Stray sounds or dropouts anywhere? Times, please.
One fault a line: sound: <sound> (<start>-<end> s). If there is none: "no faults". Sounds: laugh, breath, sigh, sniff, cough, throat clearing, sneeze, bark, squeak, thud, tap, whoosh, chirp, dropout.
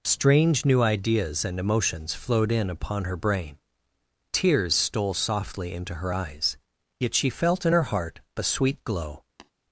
sound: tap (9.4-9.5 s)